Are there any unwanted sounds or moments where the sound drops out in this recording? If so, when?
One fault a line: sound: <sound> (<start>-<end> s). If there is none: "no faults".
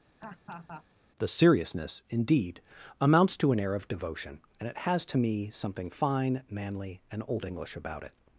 sound: laugh (0.2-0.8 s)